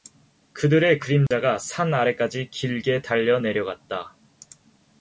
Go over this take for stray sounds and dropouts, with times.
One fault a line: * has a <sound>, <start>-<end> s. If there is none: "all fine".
* has a dropout, 1.3-1.3 s